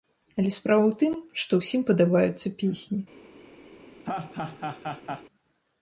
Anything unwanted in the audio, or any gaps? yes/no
yes